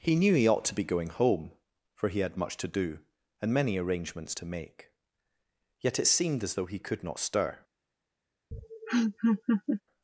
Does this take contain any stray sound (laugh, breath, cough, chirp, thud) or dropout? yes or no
yes